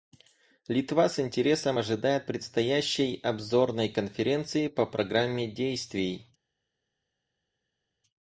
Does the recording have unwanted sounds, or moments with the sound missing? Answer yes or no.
no